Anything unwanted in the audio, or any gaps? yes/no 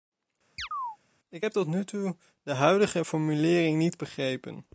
yes